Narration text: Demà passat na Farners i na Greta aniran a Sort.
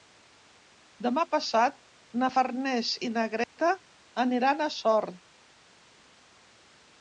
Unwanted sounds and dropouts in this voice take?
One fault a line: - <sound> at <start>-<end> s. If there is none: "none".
- dropout at 3.4-3.6 s